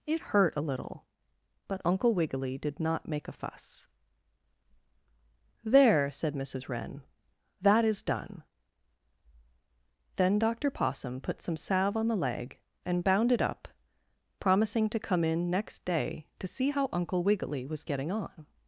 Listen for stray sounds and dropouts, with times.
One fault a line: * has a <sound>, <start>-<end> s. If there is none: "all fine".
all fine